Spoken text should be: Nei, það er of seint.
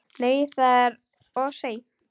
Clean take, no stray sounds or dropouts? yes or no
yes